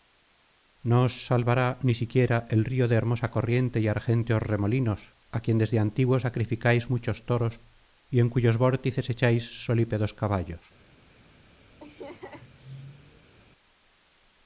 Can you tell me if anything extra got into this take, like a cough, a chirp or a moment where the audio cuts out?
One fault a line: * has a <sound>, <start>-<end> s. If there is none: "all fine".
* has a laugh, 11.8-13.3 s